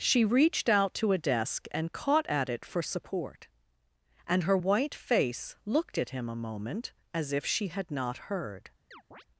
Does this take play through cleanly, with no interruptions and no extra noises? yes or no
no